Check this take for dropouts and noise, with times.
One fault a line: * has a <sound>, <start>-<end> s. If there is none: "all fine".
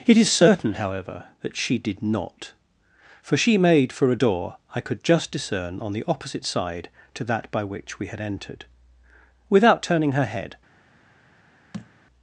* has a thud, 11.7-11.9 s